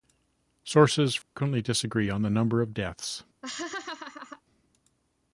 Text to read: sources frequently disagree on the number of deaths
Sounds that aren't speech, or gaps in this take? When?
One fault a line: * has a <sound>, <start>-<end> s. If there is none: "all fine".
* has a dropout, 1.2-1.4 s
* has a laugh, 3.4-4.4 s